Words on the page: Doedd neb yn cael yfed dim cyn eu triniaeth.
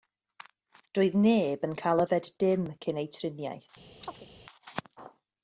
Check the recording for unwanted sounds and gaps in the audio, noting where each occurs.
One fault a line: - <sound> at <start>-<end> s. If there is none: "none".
- chirp at 4.0-4.3 s